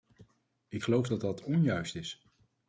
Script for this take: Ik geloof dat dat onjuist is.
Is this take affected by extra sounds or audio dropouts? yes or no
no